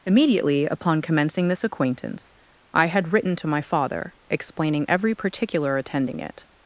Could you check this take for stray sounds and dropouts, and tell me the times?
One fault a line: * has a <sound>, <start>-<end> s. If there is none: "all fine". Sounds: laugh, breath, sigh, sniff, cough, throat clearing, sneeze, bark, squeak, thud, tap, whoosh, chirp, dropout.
all fine